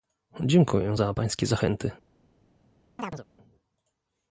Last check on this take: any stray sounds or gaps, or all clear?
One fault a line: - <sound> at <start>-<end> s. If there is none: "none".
- chirp at 3.0-3.2 s